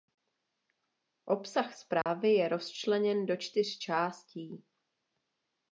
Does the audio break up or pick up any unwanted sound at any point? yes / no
yes